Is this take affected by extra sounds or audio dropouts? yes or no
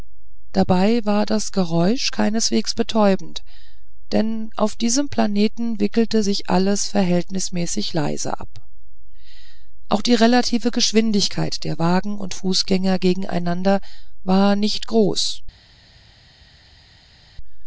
no